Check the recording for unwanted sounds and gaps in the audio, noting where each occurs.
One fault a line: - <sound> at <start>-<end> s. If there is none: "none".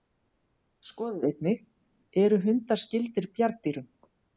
none